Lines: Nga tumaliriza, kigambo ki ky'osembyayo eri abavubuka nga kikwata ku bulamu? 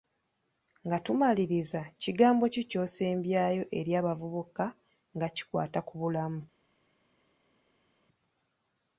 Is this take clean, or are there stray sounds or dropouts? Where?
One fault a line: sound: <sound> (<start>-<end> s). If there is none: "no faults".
no faults